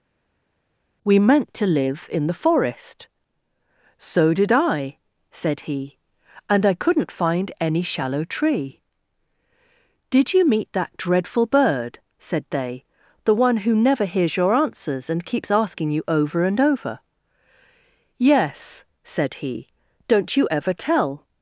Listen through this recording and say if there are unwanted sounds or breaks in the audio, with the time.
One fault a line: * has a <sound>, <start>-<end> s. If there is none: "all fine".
all fine